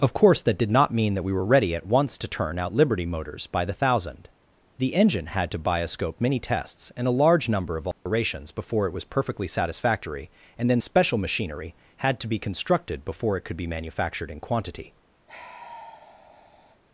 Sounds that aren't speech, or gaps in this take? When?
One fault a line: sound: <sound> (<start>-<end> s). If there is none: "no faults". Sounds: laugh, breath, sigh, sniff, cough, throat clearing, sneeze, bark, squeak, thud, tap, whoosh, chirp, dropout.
sound: dropout (7.9-8.1 s)
sound: sigh (15.3-16.8 s)